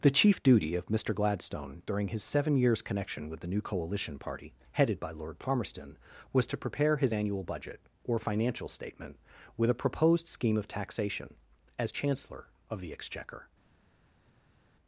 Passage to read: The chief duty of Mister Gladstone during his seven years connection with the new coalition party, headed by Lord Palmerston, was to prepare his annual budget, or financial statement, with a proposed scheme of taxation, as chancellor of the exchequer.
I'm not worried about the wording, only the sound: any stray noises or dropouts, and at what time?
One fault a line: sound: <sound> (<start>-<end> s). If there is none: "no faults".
no faults